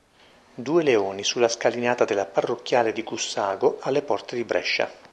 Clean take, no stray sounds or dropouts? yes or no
yes